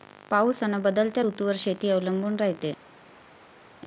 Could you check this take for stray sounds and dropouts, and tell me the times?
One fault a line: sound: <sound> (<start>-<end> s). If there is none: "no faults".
no faults